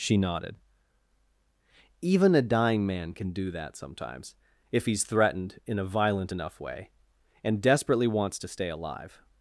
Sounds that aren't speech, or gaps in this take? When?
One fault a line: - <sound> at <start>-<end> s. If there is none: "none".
none